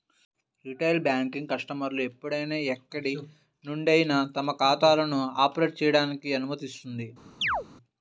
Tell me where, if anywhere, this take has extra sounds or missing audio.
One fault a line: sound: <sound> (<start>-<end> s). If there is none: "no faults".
sound: chirp (7.4-7.7 s)